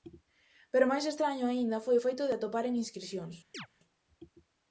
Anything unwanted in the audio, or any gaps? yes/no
yes